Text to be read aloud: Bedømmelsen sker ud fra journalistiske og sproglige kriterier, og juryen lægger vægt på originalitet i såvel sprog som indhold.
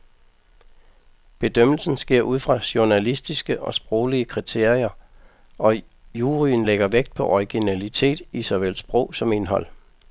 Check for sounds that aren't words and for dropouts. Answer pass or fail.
pass